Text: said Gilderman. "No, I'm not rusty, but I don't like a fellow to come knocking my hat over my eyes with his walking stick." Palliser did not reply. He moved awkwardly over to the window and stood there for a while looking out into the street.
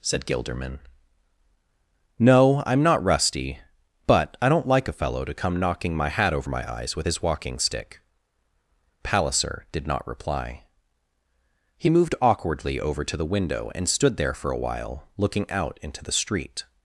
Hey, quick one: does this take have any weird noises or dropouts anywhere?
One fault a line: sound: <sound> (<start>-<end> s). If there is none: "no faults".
no faults